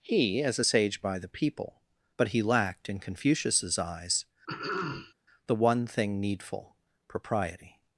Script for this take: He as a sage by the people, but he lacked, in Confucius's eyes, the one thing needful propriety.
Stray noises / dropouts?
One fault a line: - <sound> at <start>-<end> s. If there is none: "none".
- throat clearing at 4.5-5.1 s